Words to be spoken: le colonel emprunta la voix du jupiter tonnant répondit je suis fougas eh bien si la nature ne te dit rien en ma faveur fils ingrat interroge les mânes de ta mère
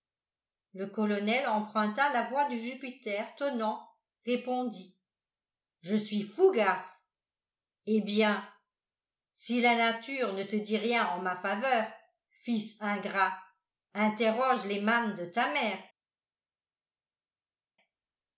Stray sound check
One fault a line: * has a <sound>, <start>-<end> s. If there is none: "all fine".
all fine